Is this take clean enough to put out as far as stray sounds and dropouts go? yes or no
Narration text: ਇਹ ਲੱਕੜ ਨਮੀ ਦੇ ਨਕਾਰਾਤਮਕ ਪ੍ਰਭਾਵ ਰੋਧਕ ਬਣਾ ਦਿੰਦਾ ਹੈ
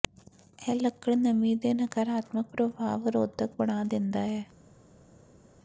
yes